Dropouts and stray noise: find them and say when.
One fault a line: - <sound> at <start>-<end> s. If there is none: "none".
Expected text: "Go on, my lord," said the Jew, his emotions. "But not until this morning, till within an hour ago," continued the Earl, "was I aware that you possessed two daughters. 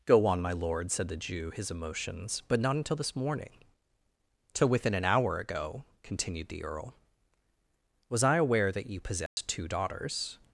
- dropout at 9.3-9.4 s